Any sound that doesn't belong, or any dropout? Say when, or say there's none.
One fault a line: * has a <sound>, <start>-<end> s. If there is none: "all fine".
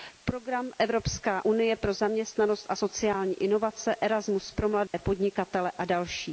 * has a dropout, 4.9-4.9 s